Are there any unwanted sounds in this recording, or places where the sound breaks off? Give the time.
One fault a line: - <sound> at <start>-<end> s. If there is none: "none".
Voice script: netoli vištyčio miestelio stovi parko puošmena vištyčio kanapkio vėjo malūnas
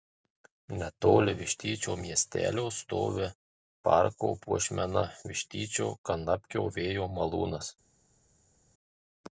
none